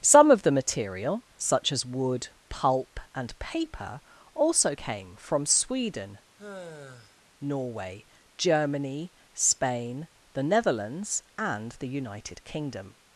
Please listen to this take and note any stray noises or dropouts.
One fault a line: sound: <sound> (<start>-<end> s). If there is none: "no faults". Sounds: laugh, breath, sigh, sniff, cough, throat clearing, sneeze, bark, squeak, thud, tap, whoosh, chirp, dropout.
sound: sigh (6.4-7.2 s)